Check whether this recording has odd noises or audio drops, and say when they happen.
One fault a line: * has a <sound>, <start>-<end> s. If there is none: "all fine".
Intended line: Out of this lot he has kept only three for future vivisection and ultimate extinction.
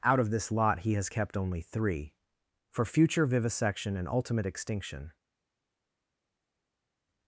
all fine